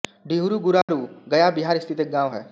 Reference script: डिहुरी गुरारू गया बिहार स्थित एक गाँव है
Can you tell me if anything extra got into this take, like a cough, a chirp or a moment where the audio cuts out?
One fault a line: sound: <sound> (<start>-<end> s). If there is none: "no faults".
sound: dropout (0.8-0.9 s)